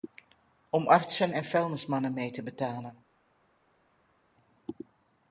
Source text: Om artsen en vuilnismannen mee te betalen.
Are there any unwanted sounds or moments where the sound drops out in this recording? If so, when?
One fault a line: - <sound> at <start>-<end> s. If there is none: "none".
none